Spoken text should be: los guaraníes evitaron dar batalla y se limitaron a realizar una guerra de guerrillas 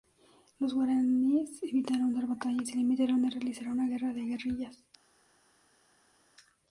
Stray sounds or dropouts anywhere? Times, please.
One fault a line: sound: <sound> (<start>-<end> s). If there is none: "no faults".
no faults